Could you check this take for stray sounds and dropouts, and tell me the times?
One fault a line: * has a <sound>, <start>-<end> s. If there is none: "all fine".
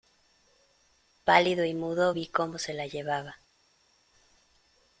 all fine